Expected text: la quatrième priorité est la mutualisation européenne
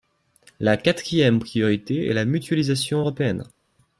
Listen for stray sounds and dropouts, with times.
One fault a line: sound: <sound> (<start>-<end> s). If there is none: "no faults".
no faults